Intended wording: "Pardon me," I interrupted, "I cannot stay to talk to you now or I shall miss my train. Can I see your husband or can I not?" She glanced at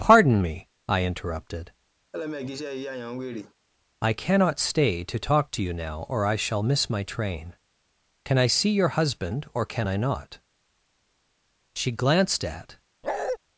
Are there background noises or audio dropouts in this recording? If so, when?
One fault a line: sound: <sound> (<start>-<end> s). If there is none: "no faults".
sound: laugh (2.1-3.5 s)
sound: bark (13.0-13.4 s)